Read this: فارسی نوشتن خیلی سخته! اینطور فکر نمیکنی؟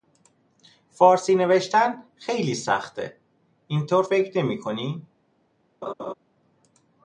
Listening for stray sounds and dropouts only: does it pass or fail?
fail